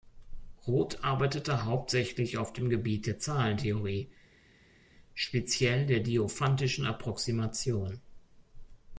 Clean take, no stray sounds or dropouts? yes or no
yes